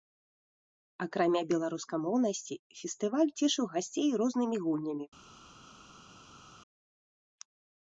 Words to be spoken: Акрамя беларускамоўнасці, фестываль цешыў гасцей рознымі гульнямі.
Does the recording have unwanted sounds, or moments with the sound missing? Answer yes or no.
no